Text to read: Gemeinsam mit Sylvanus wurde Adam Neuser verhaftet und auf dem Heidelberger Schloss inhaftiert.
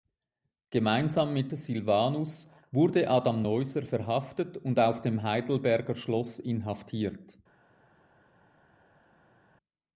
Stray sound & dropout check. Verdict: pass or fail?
pass